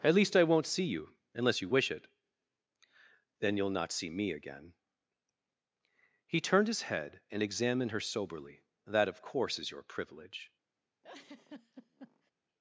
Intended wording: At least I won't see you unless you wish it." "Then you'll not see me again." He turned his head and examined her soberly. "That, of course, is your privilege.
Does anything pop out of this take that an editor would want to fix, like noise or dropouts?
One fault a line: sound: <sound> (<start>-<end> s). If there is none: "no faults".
sound: laugh (11.0-12.3 s)